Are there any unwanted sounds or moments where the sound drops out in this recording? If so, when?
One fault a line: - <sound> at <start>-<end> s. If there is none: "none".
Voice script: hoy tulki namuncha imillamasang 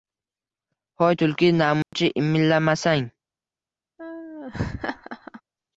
- dropout at 1.8-1.9 s
- laugh at 4.0-5.4 s